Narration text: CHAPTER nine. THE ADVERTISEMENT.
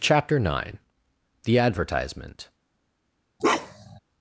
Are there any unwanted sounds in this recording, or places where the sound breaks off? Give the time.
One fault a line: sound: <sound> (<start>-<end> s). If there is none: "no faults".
sound: bark (3.4-4.0 s)